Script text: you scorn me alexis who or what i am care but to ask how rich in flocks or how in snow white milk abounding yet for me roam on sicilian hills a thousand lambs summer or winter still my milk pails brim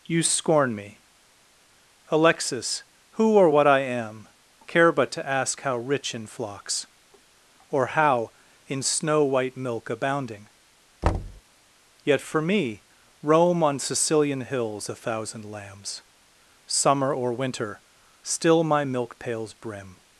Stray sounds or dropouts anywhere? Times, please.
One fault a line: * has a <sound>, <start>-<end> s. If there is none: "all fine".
* has a thud, 11.0-11.4 s